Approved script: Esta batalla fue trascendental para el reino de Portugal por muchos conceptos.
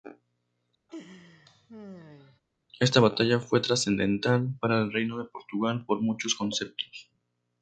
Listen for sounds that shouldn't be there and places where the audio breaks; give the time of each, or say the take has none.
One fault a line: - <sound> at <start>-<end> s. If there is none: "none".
- laugh at 0.9-2.4 s